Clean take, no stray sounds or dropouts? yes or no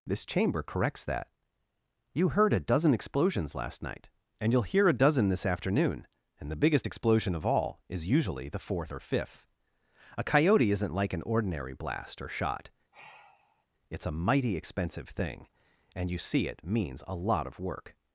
no